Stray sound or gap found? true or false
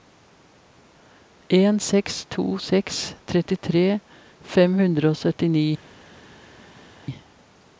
false